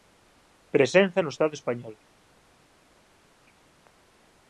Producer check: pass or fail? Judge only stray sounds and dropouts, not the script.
pass